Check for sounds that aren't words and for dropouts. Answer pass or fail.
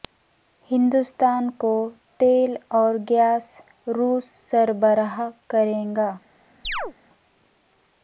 fail